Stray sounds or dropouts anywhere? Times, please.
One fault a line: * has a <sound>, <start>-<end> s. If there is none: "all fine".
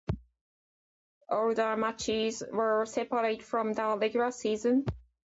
all fine